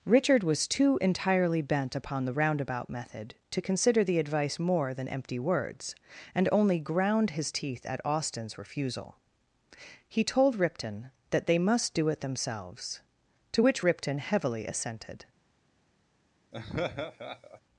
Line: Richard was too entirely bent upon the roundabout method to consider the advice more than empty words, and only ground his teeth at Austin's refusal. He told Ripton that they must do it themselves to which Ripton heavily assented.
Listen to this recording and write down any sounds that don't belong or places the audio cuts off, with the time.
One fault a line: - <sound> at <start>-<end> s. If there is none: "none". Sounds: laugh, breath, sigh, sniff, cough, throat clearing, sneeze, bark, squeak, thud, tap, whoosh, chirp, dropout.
- laugh at 16.5-17.6 s